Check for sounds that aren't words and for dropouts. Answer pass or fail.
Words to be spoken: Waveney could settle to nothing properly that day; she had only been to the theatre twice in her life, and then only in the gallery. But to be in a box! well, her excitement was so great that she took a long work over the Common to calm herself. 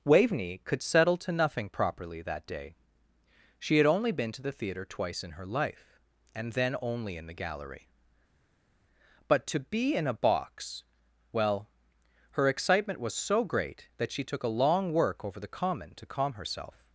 pass